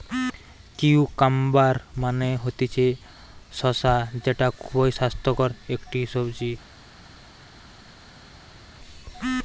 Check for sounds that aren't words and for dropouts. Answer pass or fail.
pass